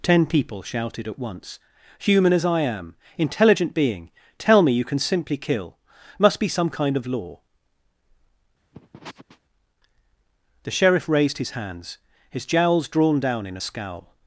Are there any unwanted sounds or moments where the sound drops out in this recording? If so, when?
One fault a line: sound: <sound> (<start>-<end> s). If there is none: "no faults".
sound: sniff (8.7-9.4 s)